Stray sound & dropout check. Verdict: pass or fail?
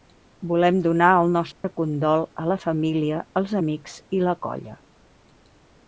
fail